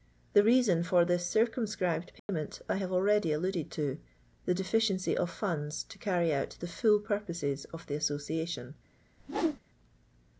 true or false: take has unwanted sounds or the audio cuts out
true